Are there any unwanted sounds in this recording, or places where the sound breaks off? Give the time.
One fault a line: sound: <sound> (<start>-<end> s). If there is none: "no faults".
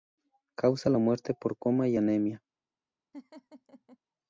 sound: laugh (3.1-4.0 s)